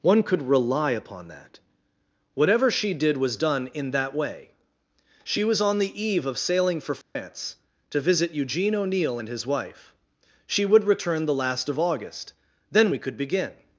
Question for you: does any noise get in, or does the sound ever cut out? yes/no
yes